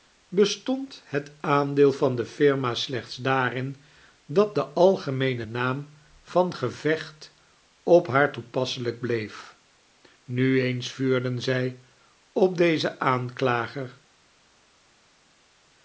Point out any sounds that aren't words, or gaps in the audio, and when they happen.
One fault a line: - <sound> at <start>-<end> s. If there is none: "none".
none